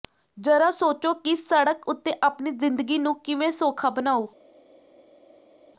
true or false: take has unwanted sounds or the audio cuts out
false